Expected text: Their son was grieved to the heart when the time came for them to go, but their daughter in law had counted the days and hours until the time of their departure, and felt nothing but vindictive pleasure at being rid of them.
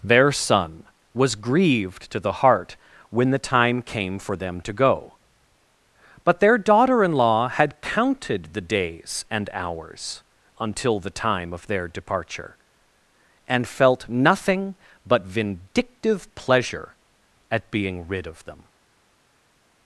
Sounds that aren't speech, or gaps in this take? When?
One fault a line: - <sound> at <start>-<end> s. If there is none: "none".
none